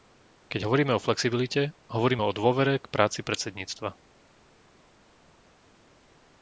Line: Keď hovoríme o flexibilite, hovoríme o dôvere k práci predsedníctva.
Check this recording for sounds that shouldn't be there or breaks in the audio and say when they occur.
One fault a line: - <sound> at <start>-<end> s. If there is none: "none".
none